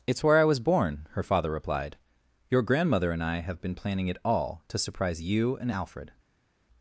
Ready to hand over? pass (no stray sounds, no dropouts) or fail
pass